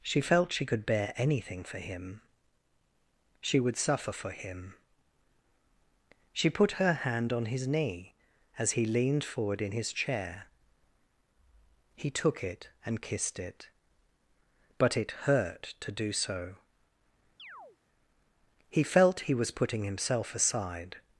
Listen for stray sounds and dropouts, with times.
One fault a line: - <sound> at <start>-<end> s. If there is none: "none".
- chirp at 17.4-17.8 s